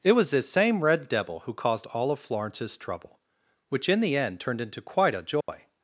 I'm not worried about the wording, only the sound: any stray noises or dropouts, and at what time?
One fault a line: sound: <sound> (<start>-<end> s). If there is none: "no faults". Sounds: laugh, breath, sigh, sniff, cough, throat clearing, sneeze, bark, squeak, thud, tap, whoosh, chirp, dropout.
sound: dropout (5.4-5.5 s)